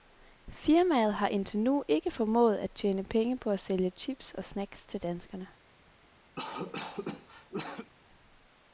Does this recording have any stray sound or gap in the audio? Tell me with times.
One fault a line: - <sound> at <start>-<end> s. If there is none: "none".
- cough at 6.3-7.9 s